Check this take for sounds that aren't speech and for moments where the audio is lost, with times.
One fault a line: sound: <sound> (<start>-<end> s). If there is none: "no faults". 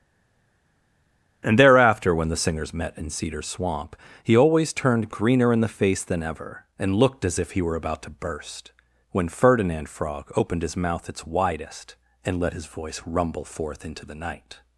no faults